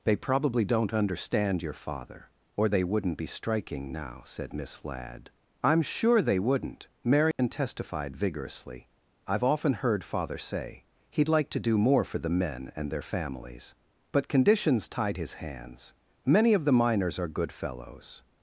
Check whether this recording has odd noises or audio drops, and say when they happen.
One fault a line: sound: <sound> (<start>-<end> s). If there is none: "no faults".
sound: dropout (7.3-7.4 s)